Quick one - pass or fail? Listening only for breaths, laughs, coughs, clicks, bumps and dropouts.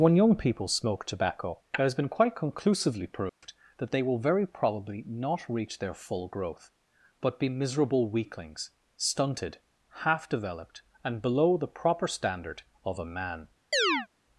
fail